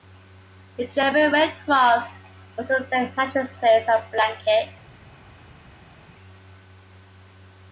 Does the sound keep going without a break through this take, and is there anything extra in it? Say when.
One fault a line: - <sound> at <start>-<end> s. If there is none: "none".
none